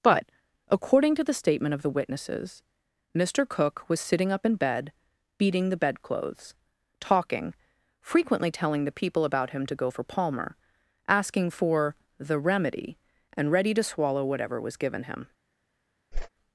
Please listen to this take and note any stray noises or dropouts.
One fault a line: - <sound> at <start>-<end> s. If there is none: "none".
- whoosh at 16.1-16.3 s